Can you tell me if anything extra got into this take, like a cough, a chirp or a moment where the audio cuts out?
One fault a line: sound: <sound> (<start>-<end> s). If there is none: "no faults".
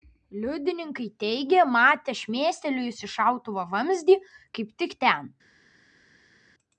no faults